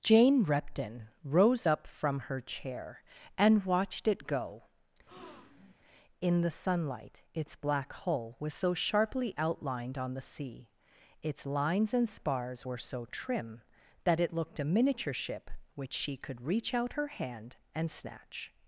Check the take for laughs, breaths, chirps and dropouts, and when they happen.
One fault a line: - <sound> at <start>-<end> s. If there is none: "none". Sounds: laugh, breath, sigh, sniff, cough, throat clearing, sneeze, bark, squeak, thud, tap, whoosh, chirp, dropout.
- breath at 5.1-5.7 s